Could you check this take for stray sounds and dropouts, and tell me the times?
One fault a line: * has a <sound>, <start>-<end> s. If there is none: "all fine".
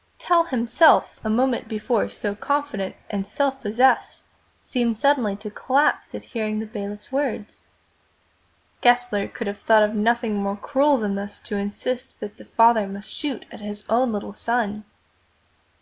all fine